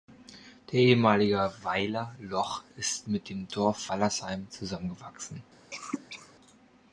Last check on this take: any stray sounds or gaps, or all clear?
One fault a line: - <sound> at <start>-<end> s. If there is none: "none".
- cough at 5.7-6.3 s